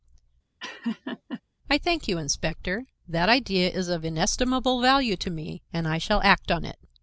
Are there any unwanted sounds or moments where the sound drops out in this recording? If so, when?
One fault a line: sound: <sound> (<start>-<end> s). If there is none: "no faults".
sound: laugh (0.6-1.4 s)